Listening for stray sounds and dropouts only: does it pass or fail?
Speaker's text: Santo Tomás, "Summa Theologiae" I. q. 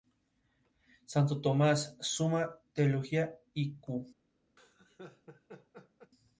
fail